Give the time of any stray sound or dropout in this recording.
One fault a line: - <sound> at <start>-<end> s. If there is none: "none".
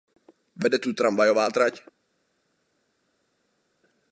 none